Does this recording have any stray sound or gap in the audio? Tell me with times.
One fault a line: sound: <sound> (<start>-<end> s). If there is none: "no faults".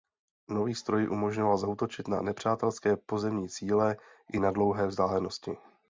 no faults